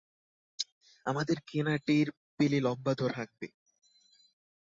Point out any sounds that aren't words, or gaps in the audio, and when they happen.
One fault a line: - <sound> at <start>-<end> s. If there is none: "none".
none